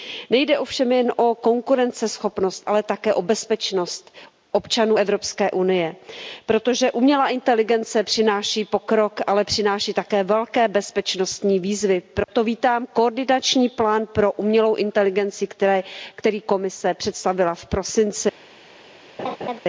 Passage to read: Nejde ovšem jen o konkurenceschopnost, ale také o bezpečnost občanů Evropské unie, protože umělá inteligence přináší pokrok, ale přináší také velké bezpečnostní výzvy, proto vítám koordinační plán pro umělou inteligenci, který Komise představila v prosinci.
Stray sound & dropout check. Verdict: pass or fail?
fail